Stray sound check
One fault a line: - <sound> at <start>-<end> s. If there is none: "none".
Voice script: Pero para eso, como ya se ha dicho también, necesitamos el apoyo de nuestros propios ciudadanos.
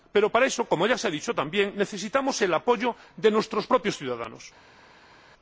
none